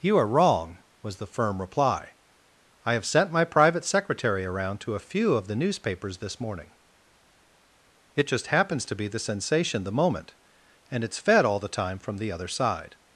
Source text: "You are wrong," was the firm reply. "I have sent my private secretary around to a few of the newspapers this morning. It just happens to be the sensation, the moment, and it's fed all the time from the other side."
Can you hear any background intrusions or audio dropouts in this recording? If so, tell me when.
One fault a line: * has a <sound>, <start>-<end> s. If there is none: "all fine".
all fine